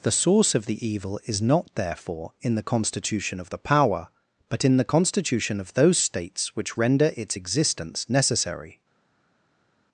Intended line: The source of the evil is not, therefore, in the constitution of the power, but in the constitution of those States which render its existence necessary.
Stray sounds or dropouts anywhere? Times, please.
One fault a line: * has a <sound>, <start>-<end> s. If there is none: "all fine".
all fine